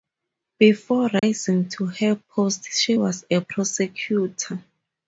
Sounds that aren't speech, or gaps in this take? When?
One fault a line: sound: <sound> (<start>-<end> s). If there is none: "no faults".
sound: dropout (1.2-1.2 s)